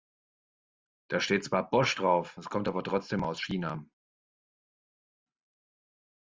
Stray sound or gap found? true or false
false